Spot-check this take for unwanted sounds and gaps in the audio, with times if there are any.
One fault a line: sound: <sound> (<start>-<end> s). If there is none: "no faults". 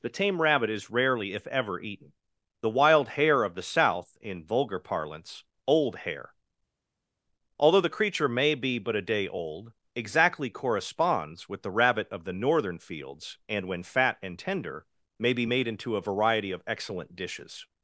no faults